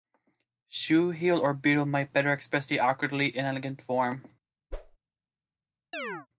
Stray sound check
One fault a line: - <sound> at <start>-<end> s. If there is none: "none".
- whoosh at 4.7-5.0 s
- chirp at 5.9-6.3 s